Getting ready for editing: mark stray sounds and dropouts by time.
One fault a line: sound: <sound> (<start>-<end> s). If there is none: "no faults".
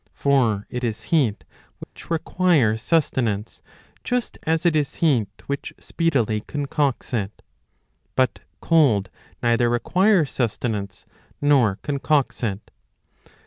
sound: dropout (1.8-2.0 s)